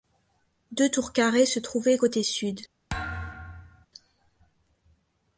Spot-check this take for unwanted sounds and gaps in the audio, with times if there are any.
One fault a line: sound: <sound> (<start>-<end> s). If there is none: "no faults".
sound: thud (2.9-3.9 s)